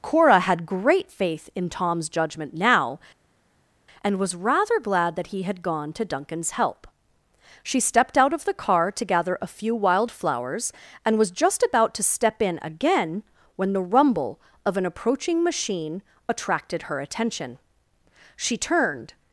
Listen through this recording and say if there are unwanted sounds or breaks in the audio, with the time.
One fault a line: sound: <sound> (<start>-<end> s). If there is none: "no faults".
no faults